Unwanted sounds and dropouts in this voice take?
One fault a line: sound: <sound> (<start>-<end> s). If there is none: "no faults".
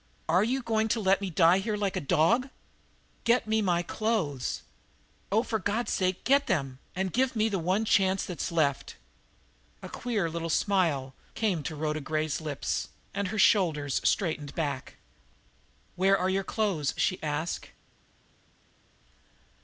no faults